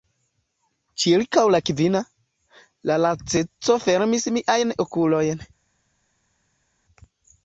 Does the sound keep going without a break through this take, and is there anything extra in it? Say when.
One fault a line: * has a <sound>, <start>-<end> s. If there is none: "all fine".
all fine